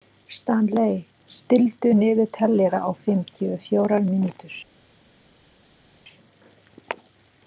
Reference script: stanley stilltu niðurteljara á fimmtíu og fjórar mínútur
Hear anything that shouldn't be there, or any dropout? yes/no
no